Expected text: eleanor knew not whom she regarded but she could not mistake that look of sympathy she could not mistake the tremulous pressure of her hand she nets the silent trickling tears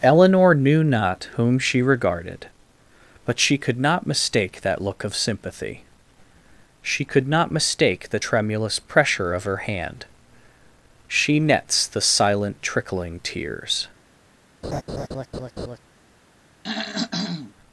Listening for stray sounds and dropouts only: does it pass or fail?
fail